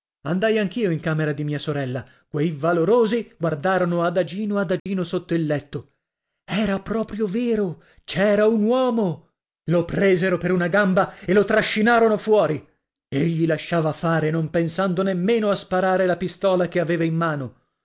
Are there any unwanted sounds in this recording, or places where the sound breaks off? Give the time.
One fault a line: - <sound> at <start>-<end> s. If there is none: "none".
- dropout at 4.8-4.9 s